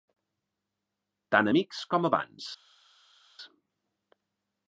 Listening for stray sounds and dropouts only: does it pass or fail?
pass